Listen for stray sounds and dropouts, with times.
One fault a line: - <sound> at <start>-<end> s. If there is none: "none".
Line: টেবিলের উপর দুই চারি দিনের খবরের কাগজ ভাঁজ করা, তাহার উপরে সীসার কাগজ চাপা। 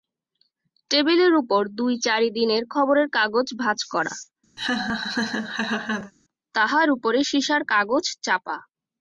- laugh at 4.6-6.1 s